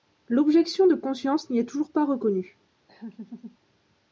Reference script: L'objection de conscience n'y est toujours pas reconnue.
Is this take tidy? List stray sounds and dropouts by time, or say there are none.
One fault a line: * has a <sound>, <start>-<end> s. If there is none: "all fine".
* has a laugh, 2.9-3.6 s